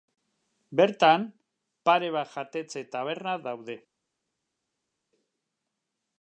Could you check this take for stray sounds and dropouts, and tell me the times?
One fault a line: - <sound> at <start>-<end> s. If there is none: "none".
none